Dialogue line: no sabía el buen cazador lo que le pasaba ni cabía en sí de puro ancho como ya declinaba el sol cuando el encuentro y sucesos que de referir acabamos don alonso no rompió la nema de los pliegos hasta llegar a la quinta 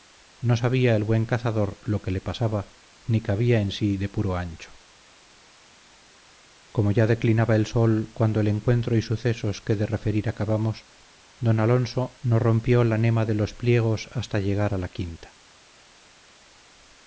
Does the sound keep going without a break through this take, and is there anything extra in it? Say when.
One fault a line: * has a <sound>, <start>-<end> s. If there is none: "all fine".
all fine